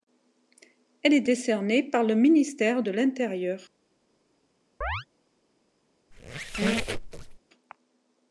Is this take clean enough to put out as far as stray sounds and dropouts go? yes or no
no